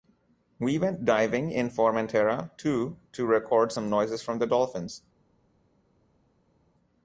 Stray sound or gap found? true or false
false